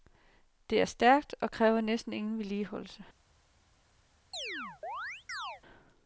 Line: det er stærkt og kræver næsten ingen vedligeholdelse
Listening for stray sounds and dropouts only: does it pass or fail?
fail